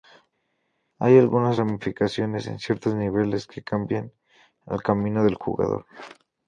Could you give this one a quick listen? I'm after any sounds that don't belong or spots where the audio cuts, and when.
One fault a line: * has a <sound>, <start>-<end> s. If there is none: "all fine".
all fine